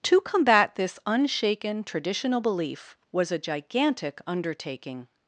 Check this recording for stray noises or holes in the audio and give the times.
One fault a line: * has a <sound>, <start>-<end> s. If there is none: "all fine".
all fine